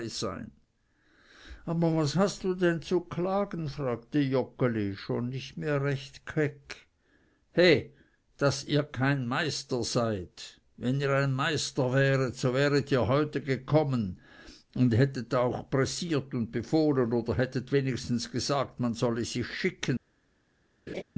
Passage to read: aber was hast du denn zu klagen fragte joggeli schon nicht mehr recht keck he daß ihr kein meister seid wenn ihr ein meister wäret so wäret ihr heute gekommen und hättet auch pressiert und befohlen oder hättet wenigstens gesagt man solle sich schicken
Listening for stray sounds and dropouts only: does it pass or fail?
fail